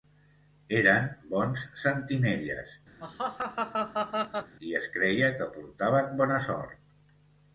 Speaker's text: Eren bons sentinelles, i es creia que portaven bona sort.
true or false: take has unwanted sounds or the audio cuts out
true